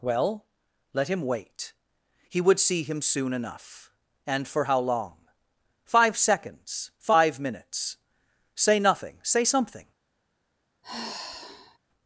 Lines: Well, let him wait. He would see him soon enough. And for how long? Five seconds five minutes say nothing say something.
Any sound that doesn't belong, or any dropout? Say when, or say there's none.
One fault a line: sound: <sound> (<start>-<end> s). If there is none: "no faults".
sound: sigh (10.8-11.8 s)